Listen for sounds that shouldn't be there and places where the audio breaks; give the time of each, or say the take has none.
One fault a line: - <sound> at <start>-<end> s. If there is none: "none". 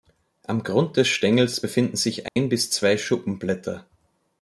- dropout at 2.3-2.4 s